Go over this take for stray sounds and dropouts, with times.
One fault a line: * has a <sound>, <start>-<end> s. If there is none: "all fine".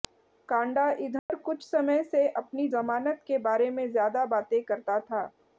* has a dropout, 1.2-1.3 s